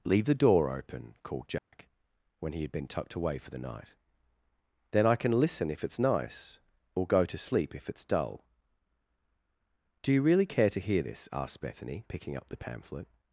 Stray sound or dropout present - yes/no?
yes